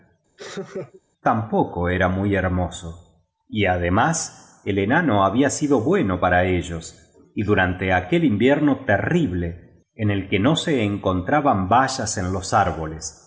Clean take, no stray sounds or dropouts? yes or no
no